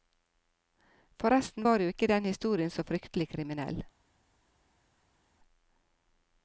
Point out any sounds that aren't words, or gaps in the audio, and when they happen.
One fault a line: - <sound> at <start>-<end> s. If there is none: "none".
none